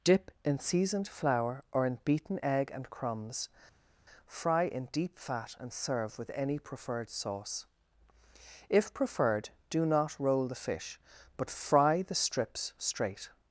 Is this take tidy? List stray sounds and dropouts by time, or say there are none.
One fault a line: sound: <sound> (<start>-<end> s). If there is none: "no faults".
no faults